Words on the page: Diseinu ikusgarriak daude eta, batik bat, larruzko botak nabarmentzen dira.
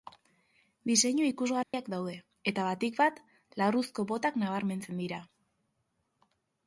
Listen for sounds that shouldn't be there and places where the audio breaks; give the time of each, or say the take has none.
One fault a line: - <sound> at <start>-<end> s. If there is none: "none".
- dropout at 1.6-1.7 s